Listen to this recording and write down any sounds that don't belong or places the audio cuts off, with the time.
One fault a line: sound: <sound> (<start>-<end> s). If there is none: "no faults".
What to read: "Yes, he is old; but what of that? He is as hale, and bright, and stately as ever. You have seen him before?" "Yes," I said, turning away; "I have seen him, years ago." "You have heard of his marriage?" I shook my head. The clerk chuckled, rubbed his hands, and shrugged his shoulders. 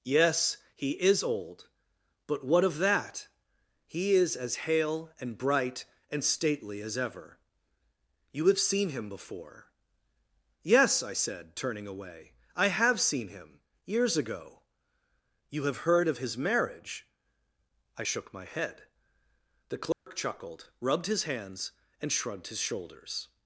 sound: dropout (19.9-20.1 s)